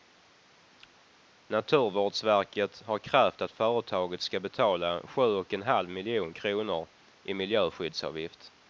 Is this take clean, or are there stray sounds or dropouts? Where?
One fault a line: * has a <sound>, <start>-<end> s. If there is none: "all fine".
all fine